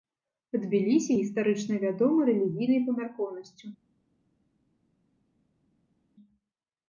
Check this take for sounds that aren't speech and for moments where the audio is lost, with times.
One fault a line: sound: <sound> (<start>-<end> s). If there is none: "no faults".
no faults